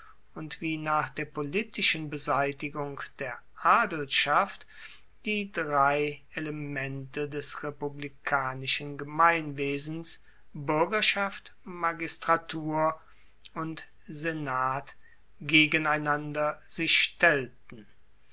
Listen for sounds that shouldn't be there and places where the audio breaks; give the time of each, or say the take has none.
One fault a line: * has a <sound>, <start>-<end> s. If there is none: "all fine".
all fine